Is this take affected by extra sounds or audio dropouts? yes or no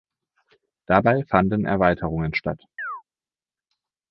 yes